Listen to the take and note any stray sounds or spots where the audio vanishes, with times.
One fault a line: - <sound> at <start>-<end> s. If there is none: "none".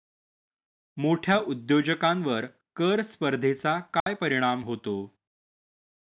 - dropout at 4.0-4.1 s